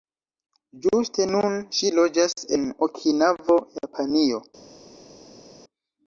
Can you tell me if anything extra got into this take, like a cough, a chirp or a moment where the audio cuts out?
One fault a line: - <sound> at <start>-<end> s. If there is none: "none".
none